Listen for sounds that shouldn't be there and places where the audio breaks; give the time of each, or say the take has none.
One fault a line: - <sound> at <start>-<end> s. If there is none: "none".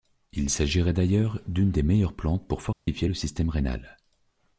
- dropout at 2.7-2.9 s